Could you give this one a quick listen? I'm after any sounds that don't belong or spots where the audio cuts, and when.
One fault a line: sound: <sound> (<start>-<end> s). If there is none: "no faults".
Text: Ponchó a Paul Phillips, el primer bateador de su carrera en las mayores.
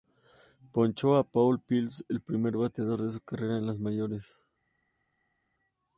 no faults